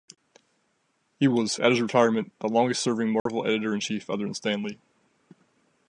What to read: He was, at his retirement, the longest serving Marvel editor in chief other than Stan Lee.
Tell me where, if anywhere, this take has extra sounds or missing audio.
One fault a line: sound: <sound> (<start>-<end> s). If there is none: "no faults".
sound: dropout (3.2-3.3 s)